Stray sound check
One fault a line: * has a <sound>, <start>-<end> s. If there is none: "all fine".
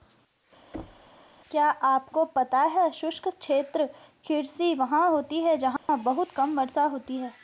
* has a thud, 0.7-1.1 s
* has a dropout, 5.8-5.9 s